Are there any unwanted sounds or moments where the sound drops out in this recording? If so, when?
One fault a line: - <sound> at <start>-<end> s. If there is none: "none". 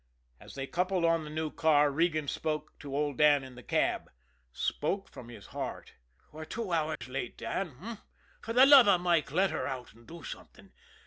- dropout at 7.0-7.0 s